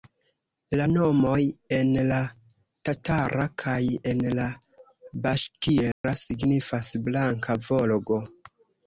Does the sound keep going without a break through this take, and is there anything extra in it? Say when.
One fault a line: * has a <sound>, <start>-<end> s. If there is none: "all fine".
* has a dropout, 5.9-6.0 s